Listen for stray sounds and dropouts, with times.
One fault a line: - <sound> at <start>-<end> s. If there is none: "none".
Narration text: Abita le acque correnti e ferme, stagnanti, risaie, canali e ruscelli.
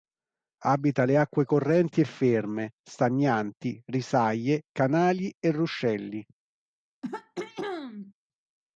- throat clearing at 7.0-8.1 s